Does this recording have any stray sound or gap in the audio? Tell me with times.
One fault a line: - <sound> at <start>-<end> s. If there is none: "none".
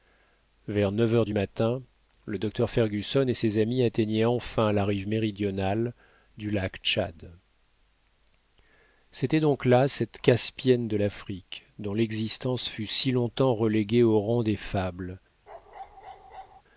- bark at 15.5-16.6 s